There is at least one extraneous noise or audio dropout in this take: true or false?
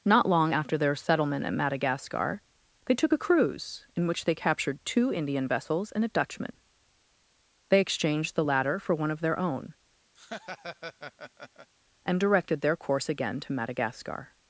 true